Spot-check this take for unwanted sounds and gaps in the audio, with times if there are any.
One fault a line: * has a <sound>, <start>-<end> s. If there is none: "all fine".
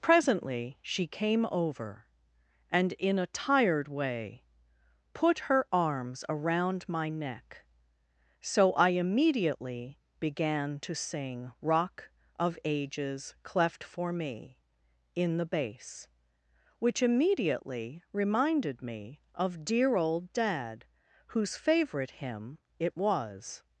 all fine